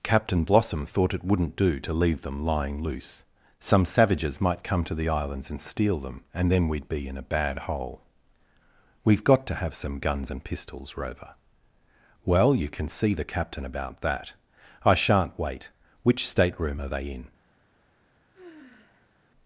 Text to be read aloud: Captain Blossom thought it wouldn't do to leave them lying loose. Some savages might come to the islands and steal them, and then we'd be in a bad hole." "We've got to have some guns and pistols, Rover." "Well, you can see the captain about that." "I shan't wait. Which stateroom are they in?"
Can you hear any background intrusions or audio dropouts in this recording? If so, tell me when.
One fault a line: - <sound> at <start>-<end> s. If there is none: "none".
- sigh at 18.3-19.1 s